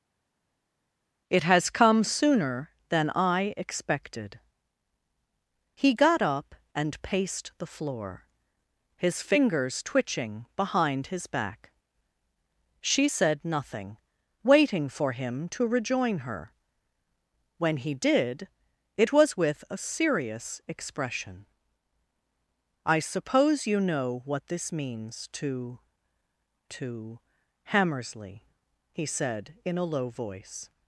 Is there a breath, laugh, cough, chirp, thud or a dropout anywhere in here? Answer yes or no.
no